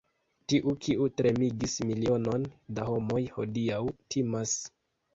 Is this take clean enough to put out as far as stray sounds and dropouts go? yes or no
yes